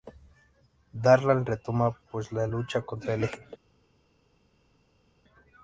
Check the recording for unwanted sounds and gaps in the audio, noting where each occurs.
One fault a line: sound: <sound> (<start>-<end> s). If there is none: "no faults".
no faults